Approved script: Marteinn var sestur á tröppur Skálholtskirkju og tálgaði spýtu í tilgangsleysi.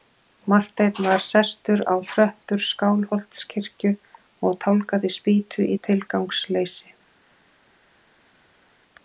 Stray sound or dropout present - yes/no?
no